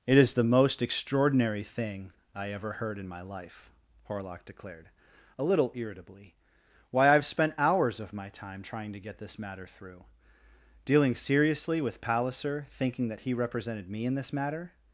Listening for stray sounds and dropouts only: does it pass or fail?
pass